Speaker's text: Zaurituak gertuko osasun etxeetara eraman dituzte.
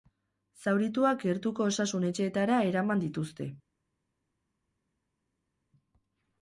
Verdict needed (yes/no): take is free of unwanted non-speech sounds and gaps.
yes